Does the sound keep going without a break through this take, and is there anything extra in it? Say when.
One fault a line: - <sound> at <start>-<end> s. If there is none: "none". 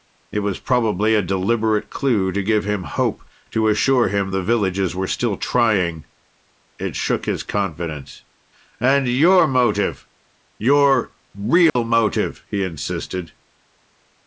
- dropout at 11.7-11.8 s